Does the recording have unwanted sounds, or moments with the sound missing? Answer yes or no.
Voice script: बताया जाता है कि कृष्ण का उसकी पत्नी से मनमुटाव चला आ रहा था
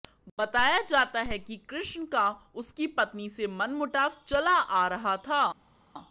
no